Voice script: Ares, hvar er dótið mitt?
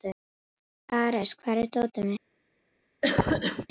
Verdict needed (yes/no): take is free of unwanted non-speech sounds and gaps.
no